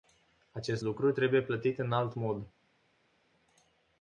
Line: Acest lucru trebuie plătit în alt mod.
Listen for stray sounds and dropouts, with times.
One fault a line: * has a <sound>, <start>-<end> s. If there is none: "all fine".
all fine